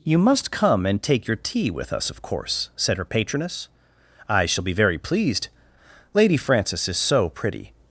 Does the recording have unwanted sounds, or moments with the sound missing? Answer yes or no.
no